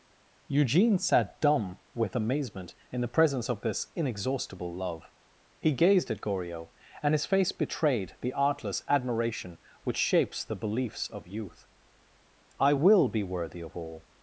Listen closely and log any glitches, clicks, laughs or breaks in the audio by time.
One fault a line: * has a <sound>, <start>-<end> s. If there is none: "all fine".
all fine